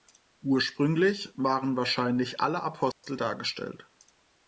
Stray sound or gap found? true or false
true